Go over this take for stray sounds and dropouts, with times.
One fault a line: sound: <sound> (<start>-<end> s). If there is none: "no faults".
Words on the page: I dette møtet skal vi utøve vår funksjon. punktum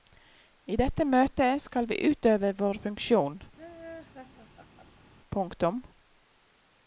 sound: laugh (3.6-5.1 s)